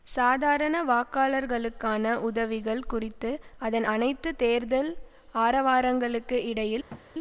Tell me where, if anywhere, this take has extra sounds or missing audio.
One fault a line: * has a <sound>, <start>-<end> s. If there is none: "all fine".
* has a thud, 6.9-7.1 s